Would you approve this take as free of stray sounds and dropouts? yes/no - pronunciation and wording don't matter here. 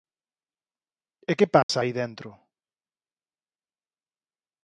no